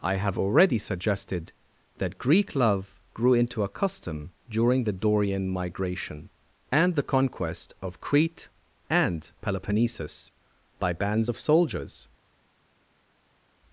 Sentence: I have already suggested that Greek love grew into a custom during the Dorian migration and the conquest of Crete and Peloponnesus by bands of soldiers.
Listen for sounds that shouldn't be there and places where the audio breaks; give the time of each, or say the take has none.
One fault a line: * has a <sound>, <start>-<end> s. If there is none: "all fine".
all fine